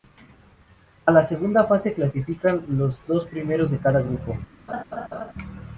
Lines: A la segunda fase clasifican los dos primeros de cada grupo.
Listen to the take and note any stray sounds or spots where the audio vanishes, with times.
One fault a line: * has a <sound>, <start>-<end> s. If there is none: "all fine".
* has a laugh, 4.7-5.3 s